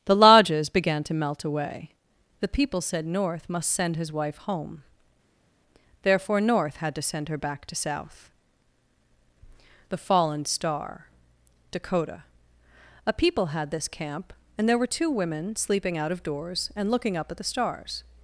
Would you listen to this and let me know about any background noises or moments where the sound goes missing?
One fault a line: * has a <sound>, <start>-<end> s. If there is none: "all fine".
all fine